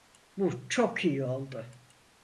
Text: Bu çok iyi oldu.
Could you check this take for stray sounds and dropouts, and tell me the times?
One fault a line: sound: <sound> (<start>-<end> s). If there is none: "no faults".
no faults